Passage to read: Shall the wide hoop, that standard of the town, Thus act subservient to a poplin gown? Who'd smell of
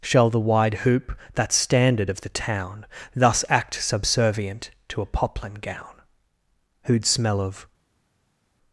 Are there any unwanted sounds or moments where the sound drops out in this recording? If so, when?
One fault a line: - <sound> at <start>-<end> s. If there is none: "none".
none